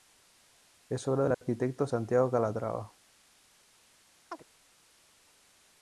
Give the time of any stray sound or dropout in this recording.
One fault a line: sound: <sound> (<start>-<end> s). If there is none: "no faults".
sound: dropout (1.3-1.4 s)
sound: chirp (4.3-4.4 s)